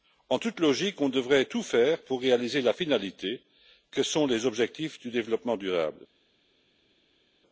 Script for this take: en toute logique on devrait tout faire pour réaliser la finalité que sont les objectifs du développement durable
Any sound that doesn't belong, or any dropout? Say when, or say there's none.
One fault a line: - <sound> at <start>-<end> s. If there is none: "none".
none